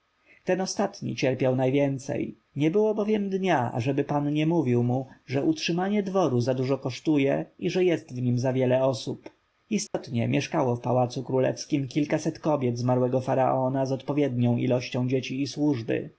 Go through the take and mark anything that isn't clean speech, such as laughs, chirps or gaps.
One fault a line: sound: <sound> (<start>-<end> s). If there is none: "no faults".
sound: dropout (9.9-9.9 s)